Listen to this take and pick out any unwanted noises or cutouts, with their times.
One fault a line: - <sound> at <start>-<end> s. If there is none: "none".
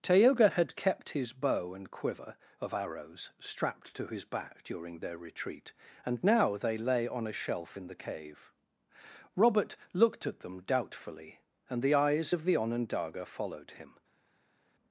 none